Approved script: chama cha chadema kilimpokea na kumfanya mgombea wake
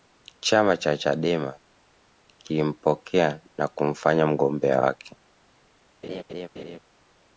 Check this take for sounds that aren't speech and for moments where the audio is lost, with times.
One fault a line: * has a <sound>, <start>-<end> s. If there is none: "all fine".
* has a laugh, 6.0-6.8 s